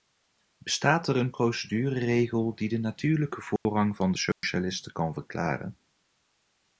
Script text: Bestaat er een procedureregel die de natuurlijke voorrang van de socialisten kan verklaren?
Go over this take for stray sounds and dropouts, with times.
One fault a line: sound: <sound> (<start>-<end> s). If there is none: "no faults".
sound: dropout (3.6-3.7 s)
sound: dropout (4.3-4.4 s)